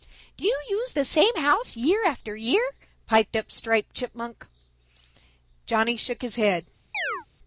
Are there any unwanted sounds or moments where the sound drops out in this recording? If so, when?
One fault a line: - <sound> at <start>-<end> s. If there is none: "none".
- chirp at 6.9-7.3 s